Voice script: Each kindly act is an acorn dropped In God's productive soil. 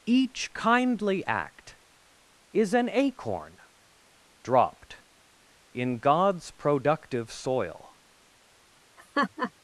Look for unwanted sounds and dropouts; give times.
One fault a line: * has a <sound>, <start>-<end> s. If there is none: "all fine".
* has a laugh, 9.0-9.5 s